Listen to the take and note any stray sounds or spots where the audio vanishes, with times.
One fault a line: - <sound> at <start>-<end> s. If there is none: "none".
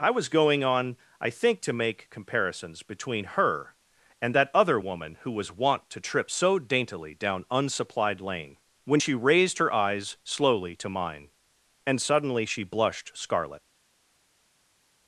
none